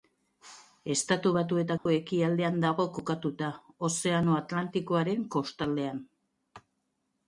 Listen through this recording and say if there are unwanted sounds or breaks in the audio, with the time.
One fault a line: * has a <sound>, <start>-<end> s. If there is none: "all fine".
* has a dropout, 1.8-1.9 s